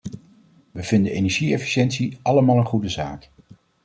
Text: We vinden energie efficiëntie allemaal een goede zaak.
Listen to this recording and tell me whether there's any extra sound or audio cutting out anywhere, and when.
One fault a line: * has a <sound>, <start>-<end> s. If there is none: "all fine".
all fine